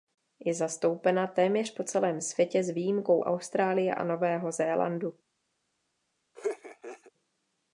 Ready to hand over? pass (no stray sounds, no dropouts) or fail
fail